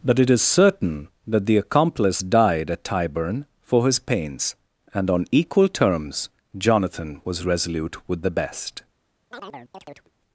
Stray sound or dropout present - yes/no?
yes